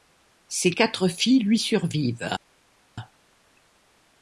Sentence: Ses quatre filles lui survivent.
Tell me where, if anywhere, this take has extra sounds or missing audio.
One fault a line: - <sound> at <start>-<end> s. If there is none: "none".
none